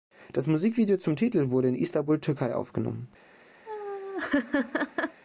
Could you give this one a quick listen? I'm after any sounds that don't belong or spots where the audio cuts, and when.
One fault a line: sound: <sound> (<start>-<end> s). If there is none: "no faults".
sound: laugh (3.7-5.2 s)